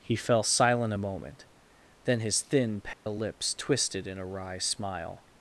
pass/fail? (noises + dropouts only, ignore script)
fail